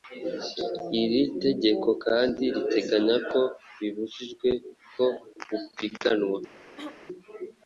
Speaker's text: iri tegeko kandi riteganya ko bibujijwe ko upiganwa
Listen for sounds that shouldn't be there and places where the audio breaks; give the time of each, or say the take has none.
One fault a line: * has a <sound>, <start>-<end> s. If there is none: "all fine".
* has a throat clearing, 6.8-7.0 s